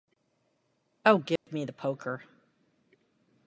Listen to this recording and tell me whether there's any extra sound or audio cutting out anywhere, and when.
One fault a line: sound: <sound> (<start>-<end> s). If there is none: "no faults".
sound: dropout (1.4-1.5 s)